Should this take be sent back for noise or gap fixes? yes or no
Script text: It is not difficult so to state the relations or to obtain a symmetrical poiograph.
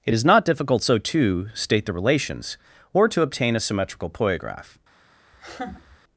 yes